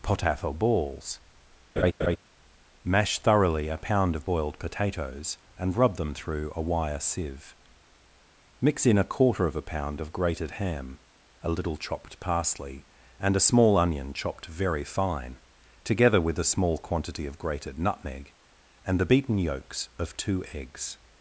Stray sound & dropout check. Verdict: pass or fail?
fail